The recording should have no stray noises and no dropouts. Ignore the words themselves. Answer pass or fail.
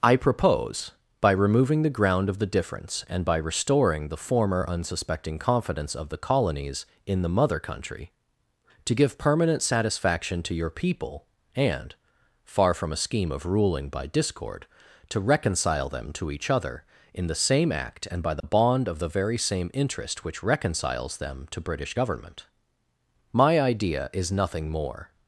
fail